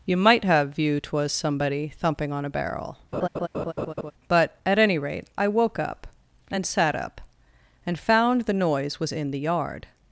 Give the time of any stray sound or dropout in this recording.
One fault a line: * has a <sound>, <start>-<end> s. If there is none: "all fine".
* has a laugh, 3.1-4.1 s